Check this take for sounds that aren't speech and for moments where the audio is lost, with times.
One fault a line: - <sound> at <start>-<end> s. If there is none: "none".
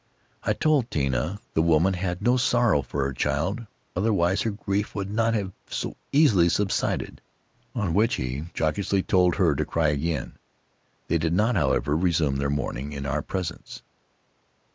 none